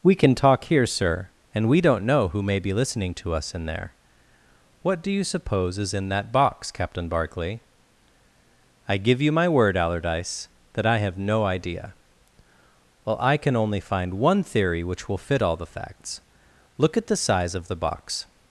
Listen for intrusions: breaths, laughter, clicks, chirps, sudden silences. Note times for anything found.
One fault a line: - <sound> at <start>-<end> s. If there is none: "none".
none